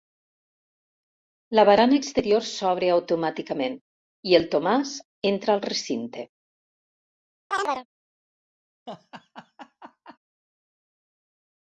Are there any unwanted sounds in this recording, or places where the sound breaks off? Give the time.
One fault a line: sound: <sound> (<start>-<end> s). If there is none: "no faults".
sound: chirp (7.5-7.9 s)
sound: laugh (8.9-10.2 s)